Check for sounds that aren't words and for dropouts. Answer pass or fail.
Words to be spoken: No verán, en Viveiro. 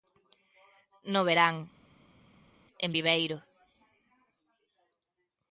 pass